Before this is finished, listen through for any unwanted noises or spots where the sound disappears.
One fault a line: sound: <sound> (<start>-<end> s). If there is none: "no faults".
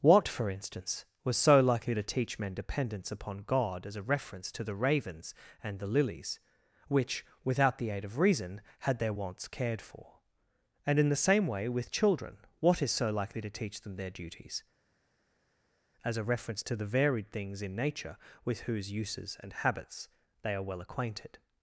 no faults